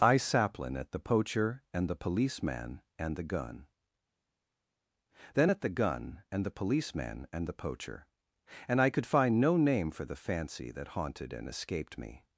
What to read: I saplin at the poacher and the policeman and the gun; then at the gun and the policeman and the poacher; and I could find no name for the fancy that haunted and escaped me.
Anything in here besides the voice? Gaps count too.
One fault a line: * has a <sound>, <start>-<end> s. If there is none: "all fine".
all fine